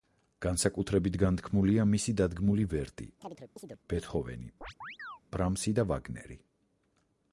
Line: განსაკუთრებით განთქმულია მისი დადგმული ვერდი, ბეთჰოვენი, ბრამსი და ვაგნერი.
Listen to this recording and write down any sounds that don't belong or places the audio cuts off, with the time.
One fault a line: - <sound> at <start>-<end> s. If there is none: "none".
- chirp at 3.2-3.8 s
- chirp at 4.6-5.2 s